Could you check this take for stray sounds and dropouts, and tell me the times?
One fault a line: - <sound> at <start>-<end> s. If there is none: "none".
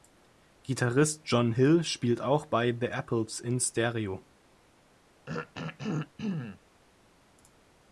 - throat clearing at 5.3-6.6 s